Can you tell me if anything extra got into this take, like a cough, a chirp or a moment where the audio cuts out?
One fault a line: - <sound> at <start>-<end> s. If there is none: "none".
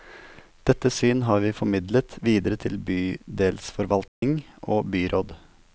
- dropout at 4.1-4.2 s